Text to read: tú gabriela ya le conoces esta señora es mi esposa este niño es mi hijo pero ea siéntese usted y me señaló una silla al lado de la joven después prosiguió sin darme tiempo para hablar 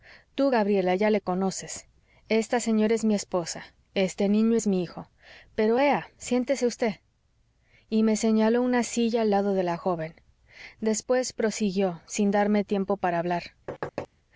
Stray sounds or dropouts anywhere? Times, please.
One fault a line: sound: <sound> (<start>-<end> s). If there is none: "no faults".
sound: thud (13.7-14.1 s)